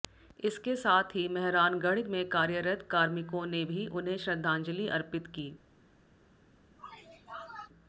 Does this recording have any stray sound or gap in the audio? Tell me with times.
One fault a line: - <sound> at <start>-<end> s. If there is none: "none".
- sneeze at 6.8-7.7 s